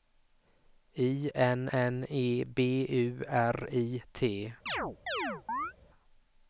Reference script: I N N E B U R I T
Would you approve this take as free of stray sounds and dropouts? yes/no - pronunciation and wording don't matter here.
no